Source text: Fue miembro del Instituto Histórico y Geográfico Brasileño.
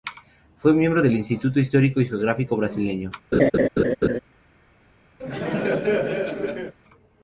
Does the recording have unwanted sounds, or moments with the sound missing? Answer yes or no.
yes